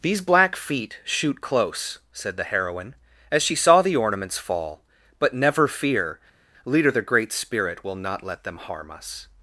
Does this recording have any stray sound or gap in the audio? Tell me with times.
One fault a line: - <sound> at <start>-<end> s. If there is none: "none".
none